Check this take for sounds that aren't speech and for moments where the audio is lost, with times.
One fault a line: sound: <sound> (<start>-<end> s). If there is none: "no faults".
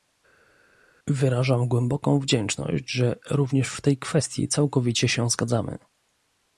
no faults